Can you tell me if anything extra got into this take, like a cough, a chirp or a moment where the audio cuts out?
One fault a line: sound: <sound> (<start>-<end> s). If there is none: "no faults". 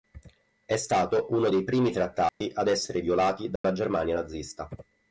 sound: dropout (2.3-2.4 s)
sound: dropout (3.6-3.6 s)